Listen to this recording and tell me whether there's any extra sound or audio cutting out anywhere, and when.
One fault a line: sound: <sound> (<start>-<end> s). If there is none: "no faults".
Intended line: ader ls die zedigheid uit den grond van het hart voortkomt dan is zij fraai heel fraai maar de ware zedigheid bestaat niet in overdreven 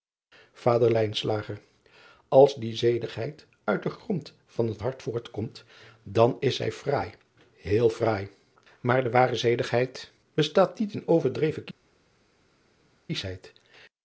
no faults